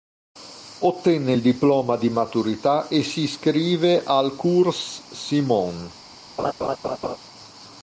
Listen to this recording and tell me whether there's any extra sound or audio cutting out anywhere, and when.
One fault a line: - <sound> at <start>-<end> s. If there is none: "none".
- laugh at 6.4-7.2 s